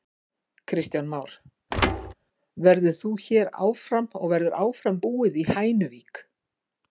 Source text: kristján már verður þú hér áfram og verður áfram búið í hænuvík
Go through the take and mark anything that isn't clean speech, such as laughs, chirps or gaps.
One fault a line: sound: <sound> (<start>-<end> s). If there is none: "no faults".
sound: thud (1.7-2.1 s)